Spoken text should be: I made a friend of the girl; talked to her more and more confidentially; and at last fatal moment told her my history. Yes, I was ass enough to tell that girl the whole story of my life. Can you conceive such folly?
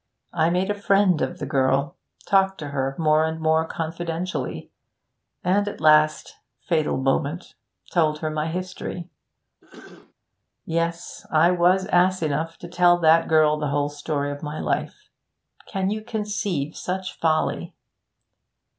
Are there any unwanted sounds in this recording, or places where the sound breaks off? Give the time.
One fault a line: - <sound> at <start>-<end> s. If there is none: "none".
- throat clearing at 9.6-10.1 s